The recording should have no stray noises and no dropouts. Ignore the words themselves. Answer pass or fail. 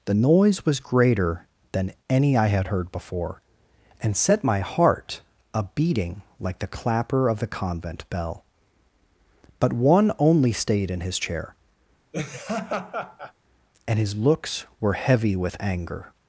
fail